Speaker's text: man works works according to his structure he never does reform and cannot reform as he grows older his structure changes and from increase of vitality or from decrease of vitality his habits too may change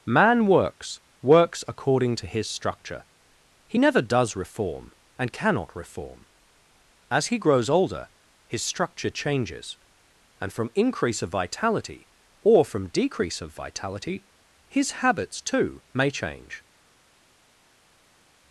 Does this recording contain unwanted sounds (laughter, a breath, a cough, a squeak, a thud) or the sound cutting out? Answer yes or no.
no